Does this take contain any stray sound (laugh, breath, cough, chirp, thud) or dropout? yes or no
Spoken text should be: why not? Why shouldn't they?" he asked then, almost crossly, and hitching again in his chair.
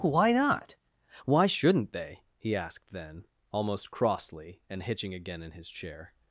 no